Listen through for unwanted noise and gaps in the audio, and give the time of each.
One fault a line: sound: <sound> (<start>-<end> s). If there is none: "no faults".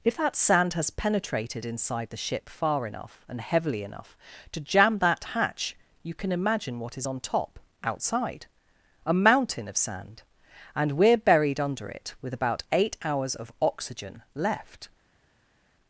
no faults